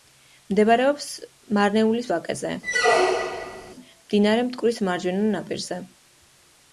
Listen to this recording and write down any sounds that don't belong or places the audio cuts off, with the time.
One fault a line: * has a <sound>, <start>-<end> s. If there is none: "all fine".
* has a squeak, 2.6-3.7 s